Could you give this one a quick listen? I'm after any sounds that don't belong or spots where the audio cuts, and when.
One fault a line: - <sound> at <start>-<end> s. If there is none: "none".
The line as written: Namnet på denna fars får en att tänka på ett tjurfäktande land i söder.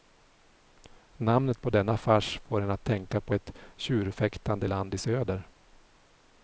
none